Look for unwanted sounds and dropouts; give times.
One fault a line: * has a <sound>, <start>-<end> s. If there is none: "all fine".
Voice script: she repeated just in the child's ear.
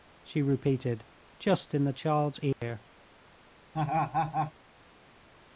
* has a dropout, 2.5-2.6 s
* has a laugh, 3.7-4.5 s